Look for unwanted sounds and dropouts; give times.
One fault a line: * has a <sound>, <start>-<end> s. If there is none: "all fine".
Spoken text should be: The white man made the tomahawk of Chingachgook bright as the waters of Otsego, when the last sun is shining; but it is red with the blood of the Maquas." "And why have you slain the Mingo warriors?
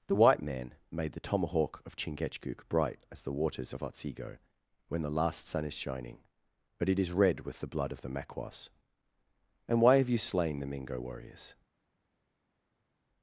all fine